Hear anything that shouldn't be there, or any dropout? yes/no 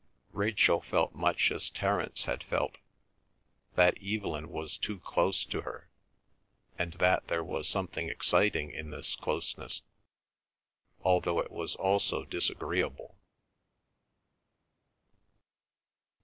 no